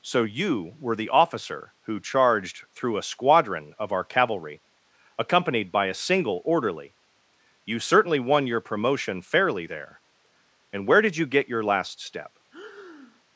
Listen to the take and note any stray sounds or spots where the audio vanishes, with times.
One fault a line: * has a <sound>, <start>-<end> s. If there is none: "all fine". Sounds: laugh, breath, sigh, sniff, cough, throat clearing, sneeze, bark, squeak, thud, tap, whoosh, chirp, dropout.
* has a breath, 12.5-13.2 s